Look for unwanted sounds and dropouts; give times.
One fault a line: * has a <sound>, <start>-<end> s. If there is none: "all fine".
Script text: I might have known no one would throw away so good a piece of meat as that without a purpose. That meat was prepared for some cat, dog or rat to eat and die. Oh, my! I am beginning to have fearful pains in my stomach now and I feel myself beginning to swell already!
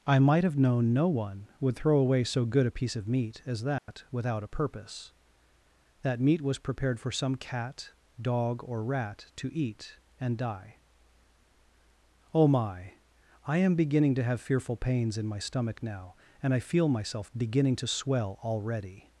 * has a dropout, 3.8-3.9 s